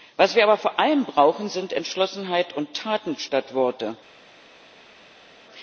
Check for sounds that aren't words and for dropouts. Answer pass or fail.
pass